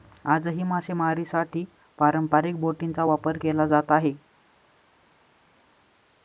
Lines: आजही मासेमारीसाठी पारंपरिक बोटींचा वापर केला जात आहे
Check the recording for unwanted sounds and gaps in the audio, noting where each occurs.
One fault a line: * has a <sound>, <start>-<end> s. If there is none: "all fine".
all fine